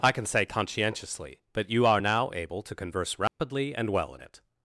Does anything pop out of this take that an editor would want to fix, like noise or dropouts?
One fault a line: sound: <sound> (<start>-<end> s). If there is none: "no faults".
sound: dropout (3.3-3.4 s)